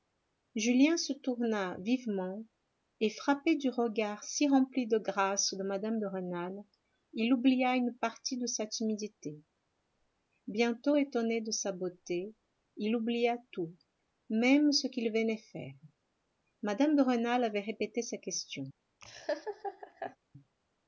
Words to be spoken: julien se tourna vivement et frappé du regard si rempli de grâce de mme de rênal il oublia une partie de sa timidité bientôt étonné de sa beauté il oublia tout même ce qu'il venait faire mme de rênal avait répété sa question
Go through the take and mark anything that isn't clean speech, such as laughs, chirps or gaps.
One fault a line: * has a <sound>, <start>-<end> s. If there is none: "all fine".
* has a laugh, 19.0-20.2 s